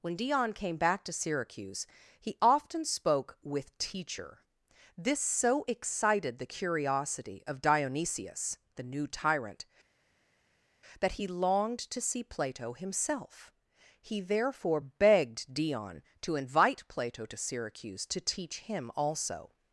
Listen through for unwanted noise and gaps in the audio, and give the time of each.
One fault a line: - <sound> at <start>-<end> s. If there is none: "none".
none